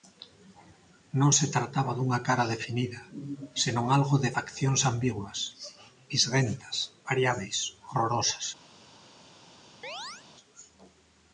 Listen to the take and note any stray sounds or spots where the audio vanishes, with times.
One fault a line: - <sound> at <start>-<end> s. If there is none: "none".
- chirp at 9.8-10.3 s